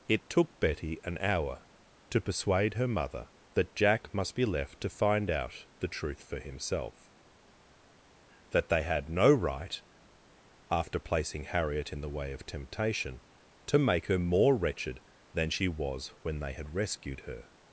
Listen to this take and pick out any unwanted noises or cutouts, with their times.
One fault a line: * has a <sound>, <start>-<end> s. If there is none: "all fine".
all fine